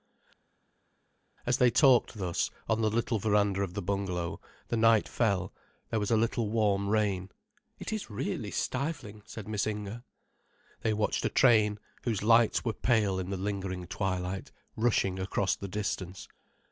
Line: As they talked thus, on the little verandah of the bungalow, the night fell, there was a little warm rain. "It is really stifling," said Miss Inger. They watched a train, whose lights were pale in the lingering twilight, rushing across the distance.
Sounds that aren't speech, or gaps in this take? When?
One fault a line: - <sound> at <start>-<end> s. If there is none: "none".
none